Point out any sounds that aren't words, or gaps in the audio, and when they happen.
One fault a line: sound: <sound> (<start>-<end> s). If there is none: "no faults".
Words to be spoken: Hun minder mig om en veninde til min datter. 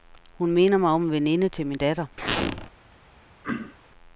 sound: squeak (2.2-2.7 s)
sound: throat clearing (3.4-3.8 s)